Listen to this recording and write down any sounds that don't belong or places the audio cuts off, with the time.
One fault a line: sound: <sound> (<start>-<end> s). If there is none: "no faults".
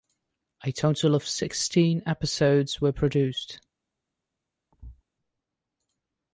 sound: thud (4.7-5.0 s)